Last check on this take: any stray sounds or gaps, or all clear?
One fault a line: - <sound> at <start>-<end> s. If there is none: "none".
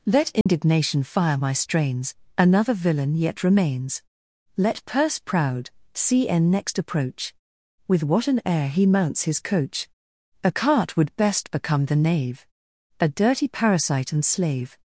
- dropout at 0.4-0.5 s